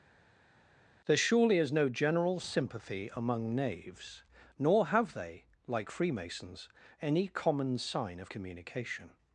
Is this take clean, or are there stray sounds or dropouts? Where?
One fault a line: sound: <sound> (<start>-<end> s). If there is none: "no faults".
no faults